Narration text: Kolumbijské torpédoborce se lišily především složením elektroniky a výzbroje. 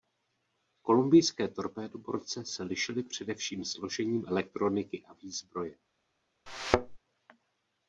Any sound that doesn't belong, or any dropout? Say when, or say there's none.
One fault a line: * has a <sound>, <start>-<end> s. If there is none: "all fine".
* has a thud, 6.5-7.0 s